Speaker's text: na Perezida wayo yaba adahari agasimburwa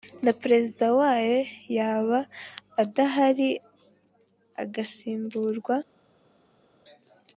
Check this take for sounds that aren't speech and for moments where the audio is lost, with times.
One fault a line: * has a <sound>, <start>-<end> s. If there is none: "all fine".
all fine